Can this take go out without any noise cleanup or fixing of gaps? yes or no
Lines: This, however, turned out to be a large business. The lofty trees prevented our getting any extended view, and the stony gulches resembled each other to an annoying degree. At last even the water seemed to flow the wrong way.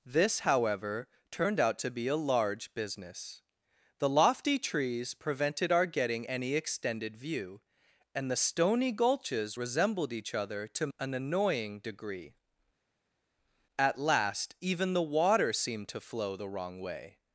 yes